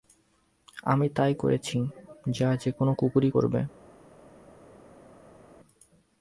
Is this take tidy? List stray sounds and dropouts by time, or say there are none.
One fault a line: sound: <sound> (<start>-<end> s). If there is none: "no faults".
no faults